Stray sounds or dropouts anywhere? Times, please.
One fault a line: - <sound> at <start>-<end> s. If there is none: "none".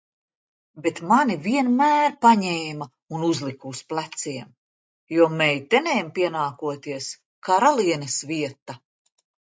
none